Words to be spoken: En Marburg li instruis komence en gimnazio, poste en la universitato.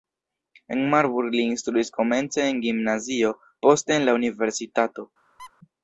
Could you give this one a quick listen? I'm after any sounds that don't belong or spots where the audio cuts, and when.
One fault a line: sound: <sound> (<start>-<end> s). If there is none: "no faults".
sound: squeak (5.4-5.5 s)